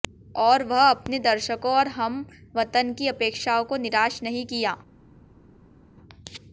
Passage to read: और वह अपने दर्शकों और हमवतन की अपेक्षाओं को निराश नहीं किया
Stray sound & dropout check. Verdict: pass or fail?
pass